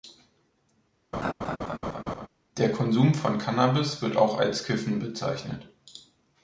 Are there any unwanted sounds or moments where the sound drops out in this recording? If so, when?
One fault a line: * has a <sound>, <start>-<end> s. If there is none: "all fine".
* has a laugh, 1.1-2.3 s